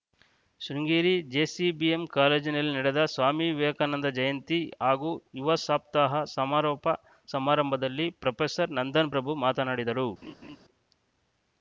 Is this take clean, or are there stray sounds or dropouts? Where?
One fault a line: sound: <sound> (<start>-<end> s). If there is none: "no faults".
sound: laugh (10.2-10.6 s)